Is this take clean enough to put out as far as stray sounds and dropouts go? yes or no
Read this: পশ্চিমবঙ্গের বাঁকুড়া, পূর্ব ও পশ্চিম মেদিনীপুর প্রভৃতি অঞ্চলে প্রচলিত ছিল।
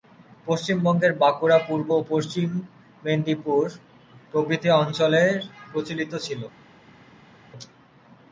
yes